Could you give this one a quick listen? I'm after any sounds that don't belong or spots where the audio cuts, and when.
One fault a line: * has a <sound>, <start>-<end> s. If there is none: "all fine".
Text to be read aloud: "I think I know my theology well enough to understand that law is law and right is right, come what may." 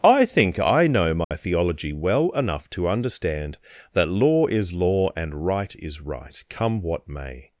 * has a dropout, 1.2-1.3 s